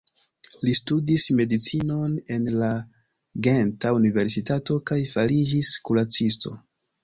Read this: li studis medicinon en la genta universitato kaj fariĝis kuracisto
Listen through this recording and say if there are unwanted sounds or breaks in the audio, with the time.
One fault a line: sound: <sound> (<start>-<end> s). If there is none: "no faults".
no faults